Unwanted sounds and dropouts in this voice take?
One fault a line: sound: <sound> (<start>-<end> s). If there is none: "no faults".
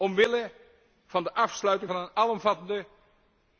no faults